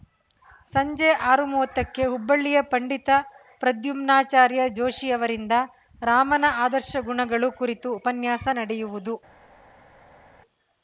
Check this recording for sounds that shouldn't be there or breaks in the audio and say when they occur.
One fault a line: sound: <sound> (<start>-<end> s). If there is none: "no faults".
no faults